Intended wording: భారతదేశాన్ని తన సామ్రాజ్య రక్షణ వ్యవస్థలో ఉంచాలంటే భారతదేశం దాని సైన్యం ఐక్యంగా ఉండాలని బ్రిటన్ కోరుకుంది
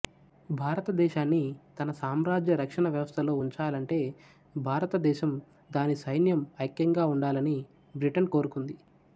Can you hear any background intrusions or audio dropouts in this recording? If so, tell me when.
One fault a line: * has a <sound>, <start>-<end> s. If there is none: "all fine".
all fine